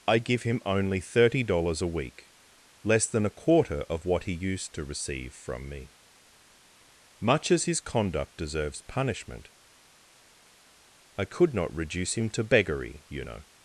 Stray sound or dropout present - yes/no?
no